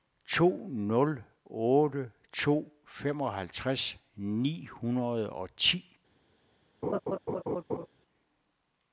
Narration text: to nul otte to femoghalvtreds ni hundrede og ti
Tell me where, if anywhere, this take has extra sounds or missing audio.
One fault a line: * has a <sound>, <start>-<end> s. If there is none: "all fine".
* has a laugh, 6.8-7.9 s